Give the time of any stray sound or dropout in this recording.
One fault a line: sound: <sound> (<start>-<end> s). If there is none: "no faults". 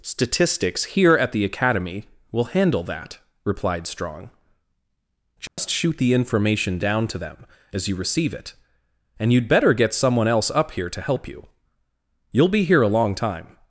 sound: dropout (5.5-5.6 s)